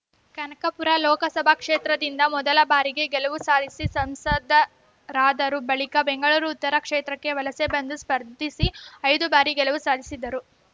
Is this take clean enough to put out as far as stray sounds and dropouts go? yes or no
yes